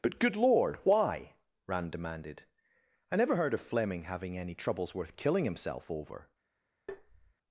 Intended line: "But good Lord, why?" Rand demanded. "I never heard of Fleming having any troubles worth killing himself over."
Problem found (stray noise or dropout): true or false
true